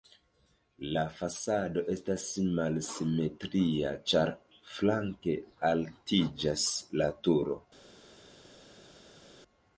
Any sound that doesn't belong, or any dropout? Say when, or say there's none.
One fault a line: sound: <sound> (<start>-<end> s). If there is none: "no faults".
no faults